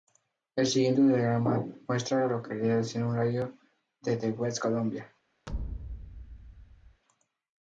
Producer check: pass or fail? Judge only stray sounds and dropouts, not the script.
fail